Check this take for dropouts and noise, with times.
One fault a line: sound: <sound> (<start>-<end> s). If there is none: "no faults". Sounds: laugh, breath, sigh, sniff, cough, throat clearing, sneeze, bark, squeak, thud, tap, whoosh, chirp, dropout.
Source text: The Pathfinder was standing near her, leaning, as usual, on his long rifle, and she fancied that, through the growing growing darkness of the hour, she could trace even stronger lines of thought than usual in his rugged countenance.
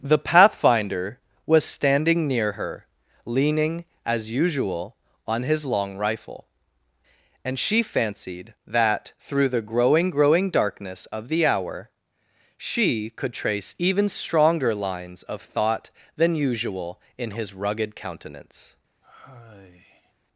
sound: sigh (19.0-20.1 s)